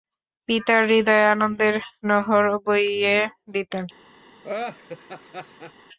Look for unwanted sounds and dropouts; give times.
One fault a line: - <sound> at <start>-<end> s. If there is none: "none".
- laugh at 4.4-5.7 s